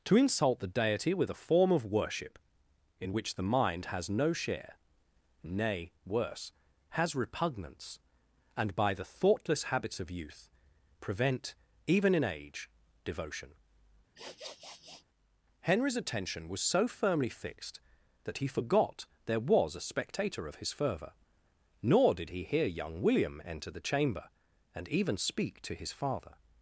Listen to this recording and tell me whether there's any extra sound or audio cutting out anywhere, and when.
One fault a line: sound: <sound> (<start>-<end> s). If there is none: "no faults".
sound: sniff (14.1-15.0 s)